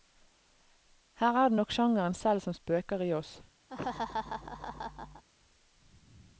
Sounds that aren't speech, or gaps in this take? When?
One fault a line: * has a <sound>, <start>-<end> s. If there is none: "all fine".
* has a laugh, 3.7-5.2 s